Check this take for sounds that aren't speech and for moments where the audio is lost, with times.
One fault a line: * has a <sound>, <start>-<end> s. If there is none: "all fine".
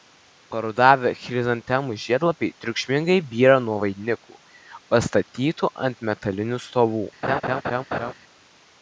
* has a laugh, 7.2-8.1 s